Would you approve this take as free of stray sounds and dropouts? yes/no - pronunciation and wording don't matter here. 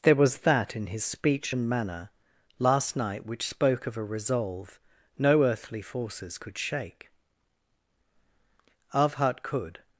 yes